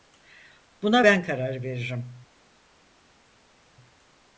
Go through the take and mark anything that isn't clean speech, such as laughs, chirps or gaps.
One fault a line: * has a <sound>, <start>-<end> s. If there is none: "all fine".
all fine